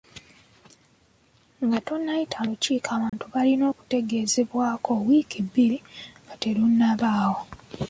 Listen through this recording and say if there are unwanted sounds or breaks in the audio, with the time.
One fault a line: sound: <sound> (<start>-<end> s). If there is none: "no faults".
sound: dropout (3.1-3.1 s)